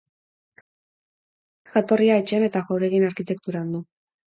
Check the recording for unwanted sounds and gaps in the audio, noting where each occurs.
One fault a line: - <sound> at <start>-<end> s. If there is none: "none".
none